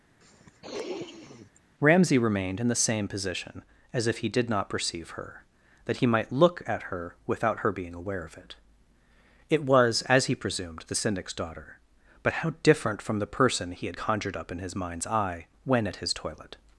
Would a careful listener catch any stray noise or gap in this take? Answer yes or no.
yes